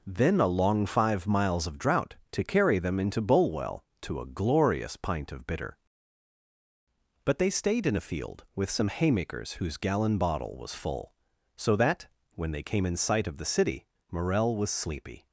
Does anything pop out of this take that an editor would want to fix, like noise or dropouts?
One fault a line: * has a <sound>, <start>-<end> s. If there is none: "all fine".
all fine